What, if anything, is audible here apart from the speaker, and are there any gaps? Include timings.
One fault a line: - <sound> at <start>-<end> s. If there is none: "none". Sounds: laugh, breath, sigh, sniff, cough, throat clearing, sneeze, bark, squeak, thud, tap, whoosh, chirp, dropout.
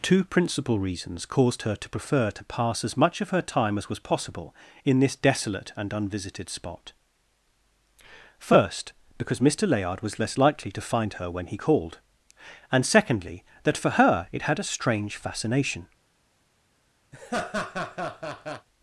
- laugh at 17.1-18.7 s